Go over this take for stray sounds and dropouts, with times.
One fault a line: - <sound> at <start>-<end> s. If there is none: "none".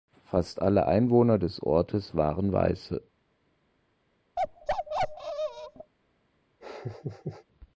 - bark at 4.4-5.9 s
- laugh at 6.6-7.5 s